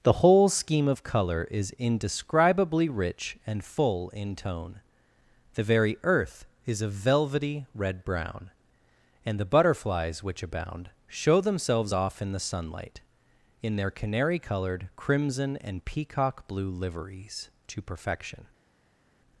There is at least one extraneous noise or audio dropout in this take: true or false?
false